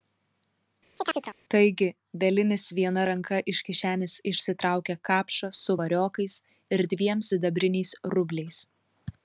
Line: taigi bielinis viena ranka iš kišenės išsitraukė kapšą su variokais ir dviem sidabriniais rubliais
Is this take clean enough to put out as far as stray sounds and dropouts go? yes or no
no